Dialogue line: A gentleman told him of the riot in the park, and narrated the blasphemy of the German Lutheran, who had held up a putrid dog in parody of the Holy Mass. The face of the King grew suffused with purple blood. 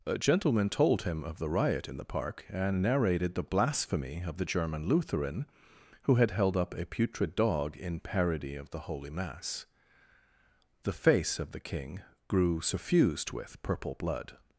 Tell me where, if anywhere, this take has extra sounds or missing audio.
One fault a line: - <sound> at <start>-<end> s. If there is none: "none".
none